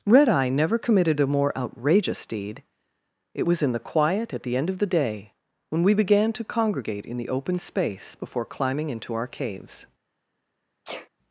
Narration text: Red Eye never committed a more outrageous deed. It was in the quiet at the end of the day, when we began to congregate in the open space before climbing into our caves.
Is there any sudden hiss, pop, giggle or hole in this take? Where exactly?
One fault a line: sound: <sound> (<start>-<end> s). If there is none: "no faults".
sound: sneeze (10.8-11.1 s)